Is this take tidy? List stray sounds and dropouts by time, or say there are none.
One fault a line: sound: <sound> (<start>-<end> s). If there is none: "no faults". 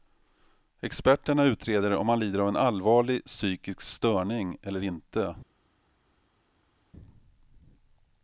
no faults